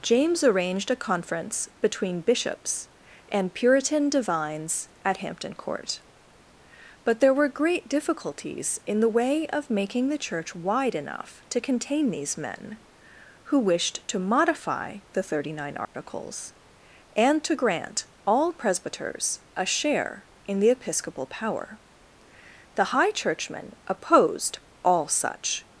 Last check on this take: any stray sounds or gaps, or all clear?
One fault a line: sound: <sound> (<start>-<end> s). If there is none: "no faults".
sound: dropout (15.8-15.9 s)